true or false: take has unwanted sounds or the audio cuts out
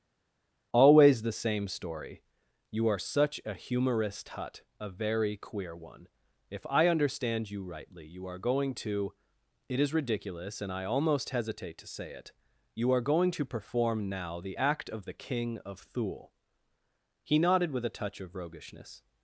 false